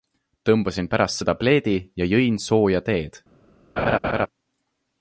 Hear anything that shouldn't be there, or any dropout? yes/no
yes